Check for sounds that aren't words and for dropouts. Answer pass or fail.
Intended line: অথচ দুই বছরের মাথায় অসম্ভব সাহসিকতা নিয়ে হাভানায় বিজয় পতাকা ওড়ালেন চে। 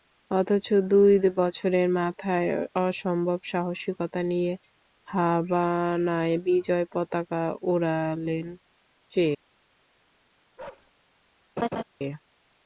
fail